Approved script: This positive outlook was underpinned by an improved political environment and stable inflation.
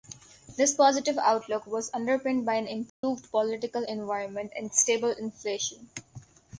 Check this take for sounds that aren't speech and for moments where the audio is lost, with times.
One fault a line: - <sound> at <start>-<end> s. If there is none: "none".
- dropout at 2.9-3.0 s